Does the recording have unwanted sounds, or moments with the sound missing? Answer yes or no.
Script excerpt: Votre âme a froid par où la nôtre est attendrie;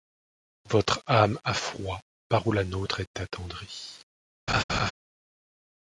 yes